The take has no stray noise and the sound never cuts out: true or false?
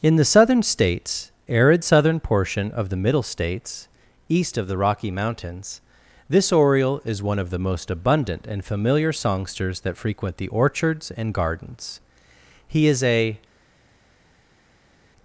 true